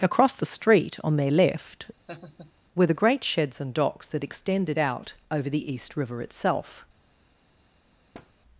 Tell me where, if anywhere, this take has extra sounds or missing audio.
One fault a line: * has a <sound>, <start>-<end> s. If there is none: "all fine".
* has a laugh, 2.1-2.5 s
* has a thud, 8.1-8.3 s